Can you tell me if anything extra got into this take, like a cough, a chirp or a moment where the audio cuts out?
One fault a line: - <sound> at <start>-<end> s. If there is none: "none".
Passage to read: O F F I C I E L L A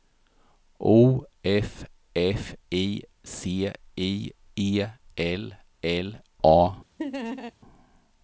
- laugh at 7.0-7.5 s